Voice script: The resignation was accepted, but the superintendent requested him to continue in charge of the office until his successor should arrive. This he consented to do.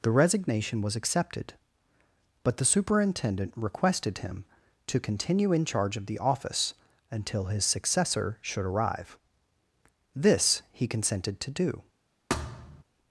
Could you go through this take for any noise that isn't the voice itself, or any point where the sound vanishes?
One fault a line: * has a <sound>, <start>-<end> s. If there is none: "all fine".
* has a thud, 12.3-12.8 s